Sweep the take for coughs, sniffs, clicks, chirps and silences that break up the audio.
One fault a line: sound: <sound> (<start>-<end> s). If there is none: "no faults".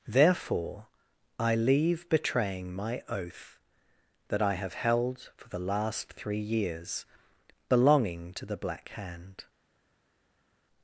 no faults